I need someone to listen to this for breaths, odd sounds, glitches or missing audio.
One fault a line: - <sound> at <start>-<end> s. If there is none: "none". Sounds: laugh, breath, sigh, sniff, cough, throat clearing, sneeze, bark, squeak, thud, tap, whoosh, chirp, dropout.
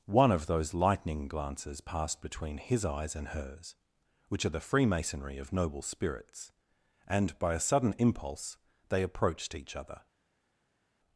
none